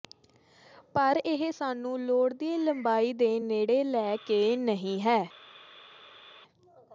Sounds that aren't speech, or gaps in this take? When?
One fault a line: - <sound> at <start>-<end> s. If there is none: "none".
none